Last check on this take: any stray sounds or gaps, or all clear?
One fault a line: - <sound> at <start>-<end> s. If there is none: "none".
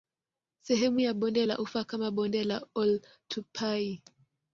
none